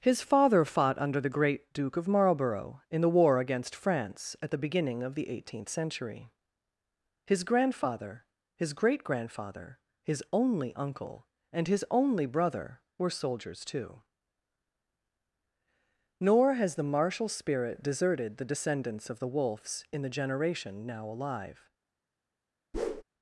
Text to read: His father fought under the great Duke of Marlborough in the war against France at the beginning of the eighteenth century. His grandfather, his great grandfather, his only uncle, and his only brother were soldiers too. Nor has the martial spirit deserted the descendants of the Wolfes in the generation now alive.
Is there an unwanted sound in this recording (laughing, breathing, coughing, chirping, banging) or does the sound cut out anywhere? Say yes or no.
yes